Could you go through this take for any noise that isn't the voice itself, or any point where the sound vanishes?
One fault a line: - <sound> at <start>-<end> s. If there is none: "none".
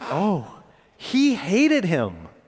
none